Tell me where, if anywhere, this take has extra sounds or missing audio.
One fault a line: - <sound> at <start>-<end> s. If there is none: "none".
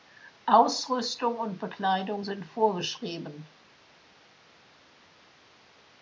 none